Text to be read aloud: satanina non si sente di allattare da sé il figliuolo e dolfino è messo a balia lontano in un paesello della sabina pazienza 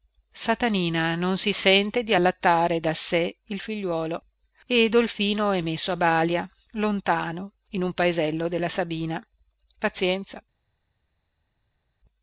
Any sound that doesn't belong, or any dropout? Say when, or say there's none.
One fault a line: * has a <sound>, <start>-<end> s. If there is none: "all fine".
all fine